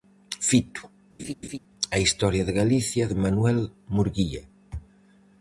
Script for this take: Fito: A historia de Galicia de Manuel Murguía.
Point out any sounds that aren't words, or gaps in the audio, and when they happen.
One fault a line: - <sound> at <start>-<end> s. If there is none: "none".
- laugh at 1.2-1.6 s